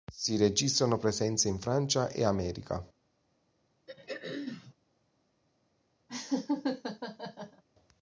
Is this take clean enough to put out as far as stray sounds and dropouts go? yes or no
no